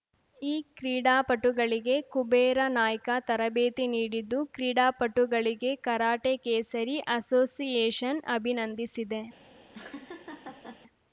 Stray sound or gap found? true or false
true